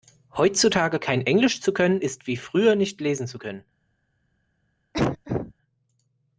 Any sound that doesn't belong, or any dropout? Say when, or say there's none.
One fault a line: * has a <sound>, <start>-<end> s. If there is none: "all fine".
* has a cough, 4.9-5.5 s